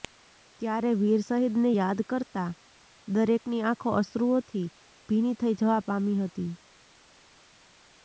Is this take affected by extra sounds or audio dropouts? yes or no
no